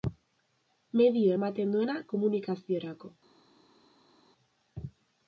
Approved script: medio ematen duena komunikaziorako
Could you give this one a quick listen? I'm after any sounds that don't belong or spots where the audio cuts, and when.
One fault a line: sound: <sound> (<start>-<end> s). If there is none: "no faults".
no faults